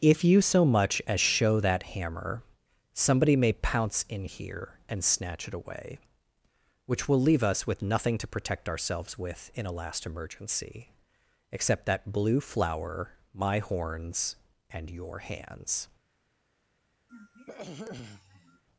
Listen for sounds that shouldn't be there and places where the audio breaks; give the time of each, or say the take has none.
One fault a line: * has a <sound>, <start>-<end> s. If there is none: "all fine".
* has a throat clearing, 17.1-18.6 s